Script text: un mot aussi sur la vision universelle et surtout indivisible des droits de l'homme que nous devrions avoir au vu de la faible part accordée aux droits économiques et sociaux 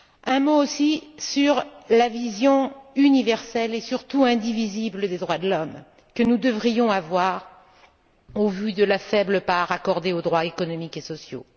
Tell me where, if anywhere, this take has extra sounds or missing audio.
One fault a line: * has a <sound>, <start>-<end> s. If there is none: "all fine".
all fine